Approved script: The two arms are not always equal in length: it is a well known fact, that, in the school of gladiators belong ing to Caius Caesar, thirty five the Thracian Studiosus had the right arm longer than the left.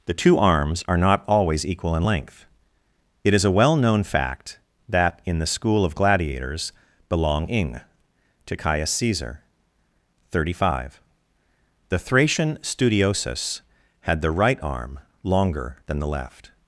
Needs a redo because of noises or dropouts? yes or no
no